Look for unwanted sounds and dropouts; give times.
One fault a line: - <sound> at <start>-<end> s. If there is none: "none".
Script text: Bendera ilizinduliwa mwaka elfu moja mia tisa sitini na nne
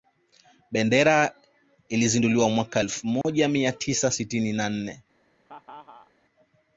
- dropout at 3.2-3.2 s
- laugh at 5.5-6.1 s